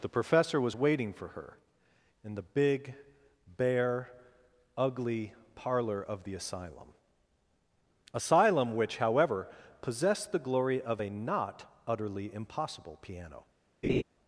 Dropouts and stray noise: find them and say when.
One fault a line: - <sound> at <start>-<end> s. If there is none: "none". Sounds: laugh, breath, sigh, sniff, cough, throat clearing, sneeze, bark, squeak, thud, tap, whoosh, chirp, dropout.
- laugh at 13.8-14.0 s